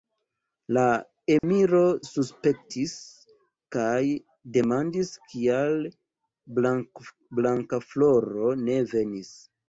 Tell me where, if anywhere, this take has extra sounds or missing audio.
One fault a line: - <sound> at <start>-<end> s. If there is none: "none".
- dropout at 1.4-1.4 s